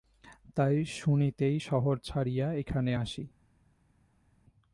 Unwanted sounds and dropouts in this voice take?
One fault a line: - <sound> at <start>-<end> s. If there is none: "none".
none